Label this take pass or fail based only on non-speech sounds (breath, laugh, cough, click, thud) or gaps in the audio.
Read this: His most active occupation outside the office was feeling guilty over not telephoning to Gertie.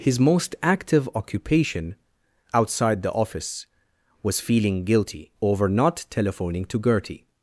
pass